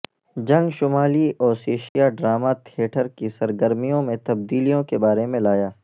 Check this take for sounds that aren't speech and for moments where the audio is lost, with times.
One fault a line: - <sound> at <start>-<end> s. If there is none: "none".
- dropout at 1.9-2.0 s